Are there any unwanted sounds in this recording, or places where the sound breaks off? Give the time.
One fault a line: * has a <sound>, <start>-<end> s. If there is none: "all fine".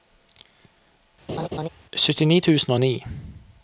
* has a laugh, 1.3-1.7 s